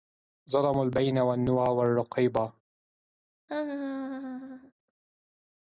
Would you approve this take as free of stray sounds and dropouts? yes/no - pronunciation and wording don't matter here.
no